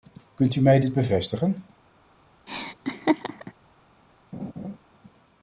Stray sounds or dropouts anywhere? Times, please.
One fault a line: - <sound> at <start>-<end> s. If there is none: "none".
- laugh at 2.5-3.5 s
- laugh at 4.3-4.8 s